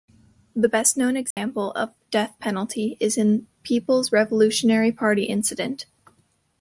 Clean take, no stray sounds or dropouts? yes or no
no